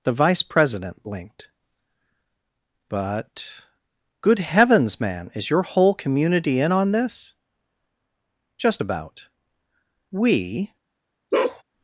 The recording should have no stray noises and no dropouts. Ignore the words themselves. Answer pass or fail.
fail